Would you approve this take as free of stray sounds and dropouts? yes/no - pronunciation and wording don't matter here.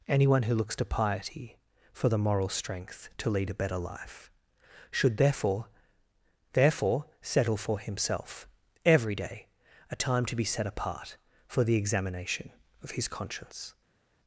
yes